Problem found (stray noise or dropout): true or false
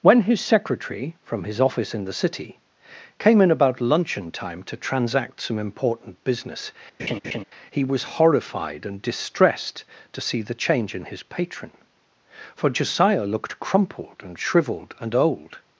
true